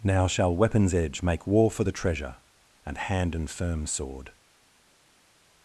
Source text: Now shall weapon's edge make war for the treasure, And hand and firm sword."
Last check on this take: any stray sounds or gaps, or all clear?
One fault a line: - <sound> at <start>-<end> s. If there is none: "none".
none